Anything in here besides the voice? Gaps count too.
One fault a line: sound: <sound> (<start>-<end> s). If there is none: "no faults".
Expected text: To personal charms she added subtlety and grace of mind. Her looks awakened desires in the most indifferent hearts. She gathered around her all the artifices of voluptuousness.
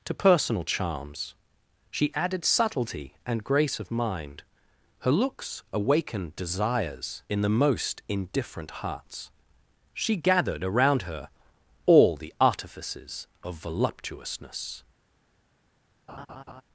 sound: laugh (16.1-16.6 s)